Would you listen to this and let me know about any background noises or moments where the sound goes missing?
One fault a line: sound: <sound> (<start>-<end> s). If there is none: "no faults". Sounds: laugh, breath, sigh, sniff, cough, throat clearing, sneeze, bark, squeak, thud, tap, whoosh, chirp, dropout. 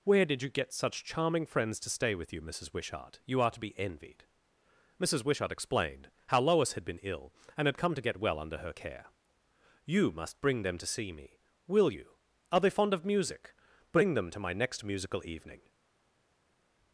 no faults